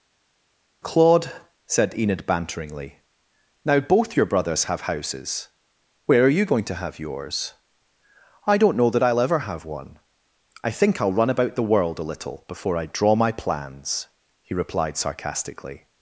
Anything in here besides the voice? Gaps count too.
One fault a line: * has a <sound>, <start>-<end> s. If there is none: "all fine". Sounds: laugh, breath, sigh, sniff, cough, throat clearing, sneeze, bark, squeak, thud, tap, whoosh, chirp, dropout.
all fine